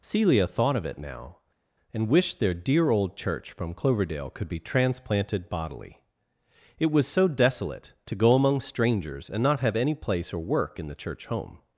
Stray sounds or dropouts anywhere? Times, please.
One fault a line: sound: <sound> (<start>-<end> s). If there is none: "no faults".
no faults